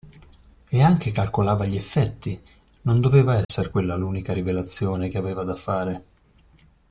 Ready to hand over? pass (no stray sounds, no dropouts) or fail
fail